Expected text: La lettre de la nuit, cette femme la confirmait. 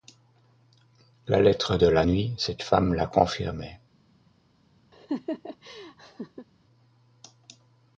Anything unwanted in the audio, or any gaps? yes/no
yes